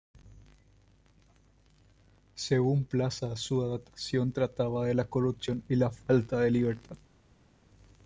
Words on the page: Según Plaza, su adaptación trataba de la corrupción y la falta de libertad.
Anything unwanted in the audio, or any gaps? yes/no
no